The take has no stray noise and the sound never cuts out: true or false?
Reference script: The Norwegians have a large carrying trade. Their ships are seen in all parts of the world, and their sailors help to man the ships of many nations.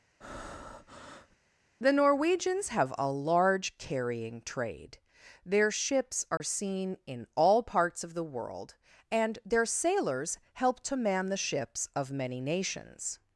false